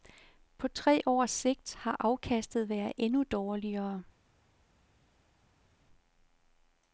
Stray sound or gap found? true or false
false